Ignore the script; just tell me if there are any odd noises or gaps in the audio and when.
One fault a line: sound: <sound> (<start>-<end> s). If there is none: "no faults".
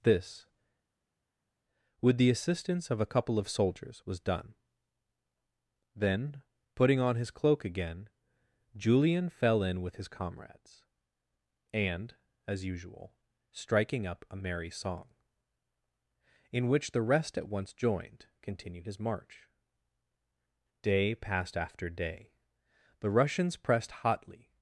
no faults